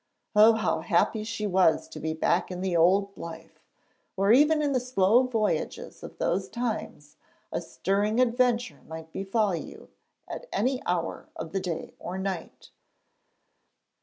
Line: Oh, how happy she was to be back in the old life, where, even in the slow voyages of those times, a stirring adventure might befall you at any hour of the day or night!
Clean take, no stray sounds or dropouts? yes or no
yes